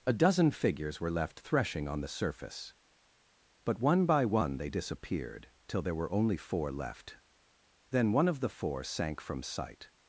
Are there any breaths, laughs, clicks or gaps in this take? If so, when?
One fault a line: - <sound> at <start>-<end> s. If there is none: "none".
none